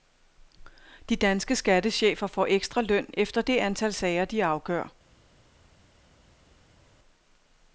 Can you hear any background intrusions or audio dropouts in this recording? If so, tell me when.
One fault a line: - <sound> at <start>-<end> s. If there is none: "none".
none